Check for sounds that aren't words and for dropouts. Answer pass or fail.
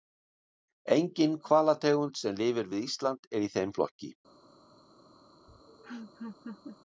fail